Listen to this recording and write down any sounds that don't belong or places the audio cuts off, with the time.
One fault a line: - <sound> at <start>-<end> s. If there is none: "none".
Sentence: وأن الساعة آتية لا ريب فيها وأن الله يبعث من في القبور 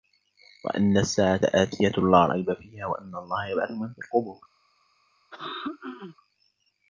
- throat clearing at 5.3-6.2 s